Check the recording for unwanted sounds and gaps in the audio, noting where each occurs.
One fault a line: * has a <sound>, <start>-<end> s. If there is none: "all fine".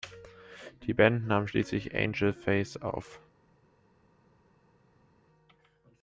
all fine